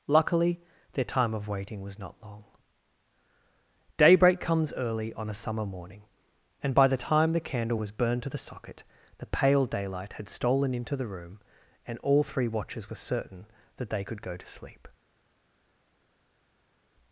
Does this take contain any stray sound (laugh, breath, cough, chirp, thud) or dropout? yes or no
no